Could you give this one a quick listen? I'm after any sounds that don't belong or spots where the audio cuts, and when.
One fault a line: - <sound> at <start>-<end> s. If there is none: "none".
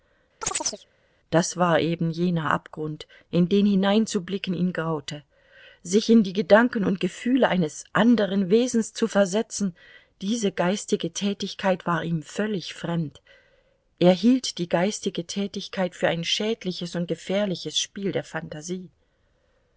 - chirp at 0.4-0.9 s